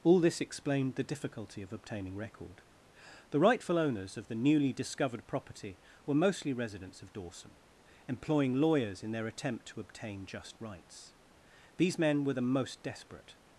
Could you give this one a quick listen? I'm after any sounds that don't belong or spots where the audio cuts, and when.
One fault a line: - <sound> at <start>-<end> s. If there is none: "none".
none